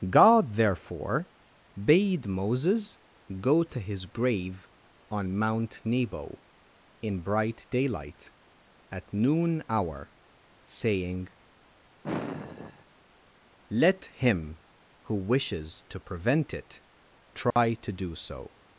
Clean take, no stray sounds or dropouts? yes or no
no